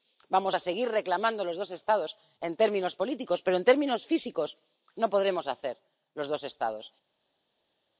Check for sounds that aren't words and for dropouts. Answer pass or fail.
pass